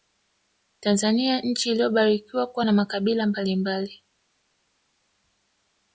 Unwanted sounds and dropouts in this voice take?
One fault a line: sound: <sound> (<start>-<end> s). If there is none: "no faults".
no faults